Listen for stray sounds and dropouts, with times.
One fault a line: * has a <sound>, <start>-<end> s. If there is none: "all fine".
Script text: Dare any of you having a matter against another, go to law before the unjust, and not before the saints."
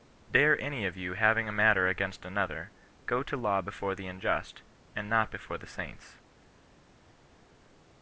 all fine